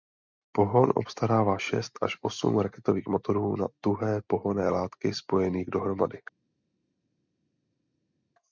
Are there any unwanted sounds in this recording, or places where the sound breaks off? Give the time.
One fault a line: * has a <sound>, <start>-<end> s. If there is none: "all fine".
all fine